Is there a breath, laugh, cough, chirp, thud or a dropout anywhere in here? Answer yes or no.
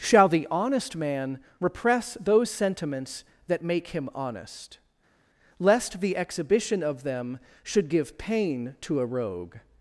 no